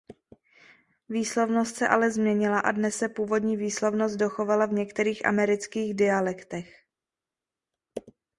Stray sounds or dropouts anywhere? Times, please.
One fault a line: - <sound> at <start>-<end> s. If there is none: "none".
none